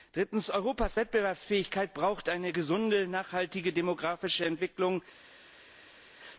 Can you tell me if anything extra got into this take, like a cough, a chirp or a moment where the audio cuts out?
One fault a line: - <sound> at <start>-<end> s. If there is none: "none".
none